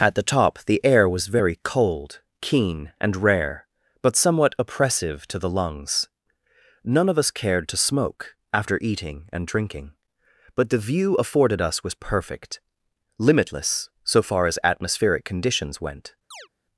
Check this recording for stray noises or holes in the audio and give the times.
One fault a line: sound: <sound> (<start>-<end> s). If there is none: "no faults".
sound: chirp (16.3-16.5 s)